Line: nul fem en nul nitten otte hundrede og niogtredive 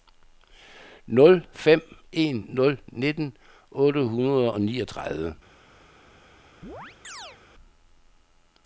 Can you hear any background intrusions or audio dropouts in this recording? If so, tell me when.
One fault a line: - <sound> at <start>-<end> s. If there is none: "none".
- chirp at 6.6-7.4 s